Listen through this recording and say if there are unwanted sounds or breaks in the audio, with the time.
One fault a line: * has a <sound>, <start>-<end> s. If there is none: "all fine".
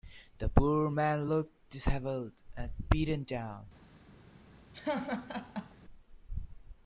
* has a laugh, 4.7-5.7 s